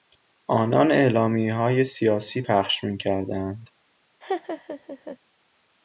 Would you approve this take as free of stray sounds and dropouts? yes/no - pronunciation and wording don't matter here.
no